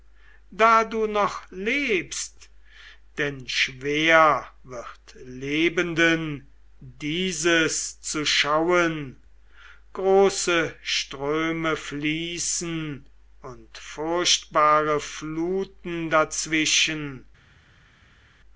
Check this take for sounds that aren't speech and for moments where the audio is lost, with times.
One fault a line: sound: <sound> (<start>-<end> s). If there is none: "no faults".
no faults